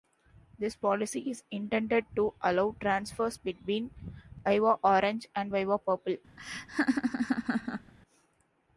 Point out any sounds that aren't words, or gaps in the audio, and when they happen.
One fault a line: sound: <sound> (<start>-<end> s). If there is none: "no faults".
sound: laugh (6.4-7.9 s)